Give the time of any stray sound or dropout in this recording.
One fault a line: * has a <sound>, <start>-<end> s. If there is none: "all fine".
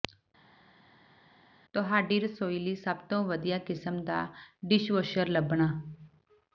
all fine